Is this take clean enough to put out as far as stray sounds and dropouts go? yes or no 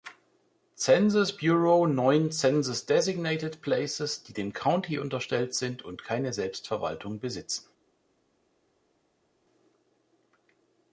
yes